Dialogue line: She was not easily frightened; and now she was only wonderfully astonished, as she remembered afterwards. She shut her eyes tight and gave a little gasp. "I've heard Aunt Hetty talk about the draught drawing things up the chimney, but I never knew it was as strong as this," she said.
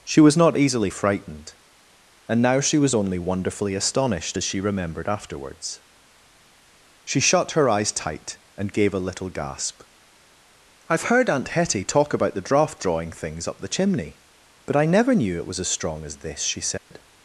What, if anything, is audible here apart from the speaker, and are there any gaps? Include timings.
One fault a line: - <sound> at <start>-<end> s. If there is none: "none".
- dropout at 16.8-16.9 s